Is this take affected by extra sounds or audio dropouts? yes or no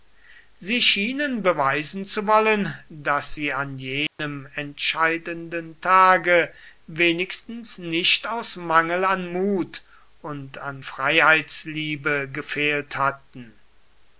yes